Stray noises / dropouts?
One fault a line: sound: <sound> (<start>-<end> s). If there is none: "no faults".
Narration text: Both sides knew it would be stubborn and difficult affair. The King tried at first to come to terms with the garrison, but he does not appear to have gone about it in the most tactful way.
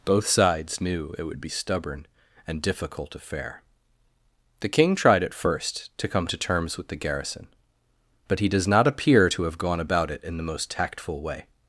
no faults